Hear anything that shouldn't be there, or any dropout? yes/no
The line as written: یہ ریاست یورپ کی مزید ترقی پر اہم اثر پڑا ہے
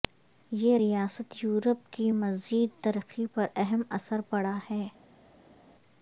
no